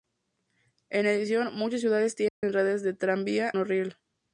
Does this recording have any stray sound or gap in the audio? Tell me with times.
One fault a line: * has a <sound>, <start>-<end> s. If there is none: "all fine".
* has a dropout, 2.3-2.4 s